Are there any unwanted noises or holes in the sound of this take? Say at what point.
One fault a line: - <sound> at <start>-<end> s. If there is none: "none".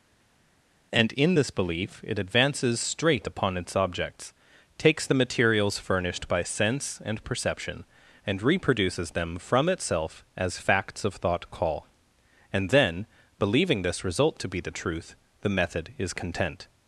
none